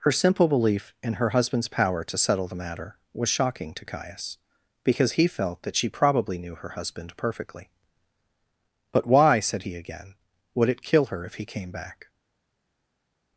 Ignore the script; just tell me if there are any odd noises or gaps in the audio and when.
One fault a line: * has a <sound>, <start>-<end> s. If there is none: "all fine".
all fine